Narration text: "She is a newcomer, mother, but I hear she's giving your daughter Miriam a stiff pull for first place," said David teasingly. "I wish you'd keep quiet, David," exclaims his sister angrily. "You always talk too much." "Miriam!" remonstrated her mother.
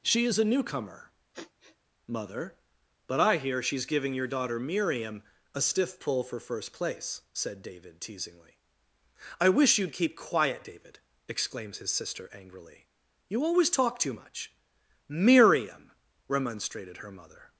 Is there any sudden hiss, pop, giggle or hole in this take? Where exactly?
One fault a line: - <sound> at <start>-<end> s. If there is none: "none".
- sniff at 1.3-1.8 s